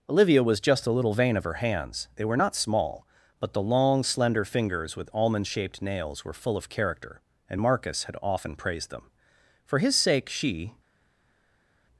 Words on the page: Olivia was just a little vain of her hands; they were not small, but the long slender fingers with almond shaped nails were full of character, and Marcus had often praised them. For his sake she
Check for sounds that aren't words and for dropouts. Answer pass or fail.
pass